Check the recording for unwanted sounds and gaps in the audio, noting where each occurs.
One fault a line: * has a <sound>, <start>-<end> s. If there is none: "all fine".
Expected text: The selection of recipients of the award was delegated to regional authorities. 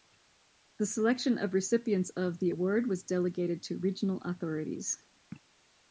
all fine